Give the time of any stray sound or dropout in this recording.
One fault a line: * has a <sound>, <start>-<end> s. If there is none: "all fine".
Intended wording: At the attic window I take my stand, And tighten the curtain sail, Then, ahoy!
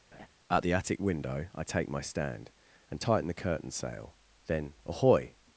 * has a laugh, 0.1-0.3 s